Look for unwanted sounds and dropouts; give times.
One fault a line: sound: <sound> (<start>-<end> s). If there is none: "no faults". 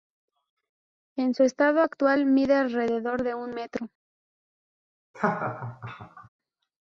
sound: laugh (5.1-6.3 s)